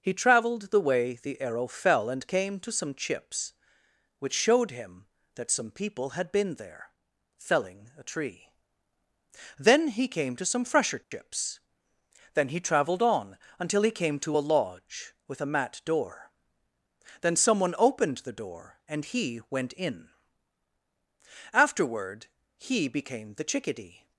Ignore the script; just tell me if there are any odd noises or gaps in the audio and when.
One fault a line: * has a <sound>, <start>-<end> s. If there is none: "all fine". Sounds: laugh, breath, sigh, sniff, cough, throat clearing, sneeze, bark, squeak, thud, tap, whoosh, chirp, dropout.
* has a dropout, 11.0-11.1 s